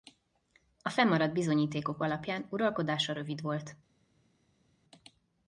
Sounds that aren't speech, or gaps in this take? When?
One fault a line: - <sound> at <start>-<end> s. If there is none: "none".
none